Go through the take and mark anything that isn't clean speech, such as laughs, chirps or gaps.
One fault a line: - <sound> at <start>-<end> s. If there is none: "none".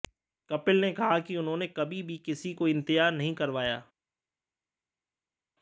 none